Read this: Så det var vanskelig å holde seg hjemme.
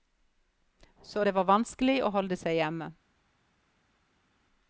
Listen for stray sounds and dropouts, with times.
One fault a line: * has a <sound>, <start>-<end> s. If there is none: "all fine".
all fine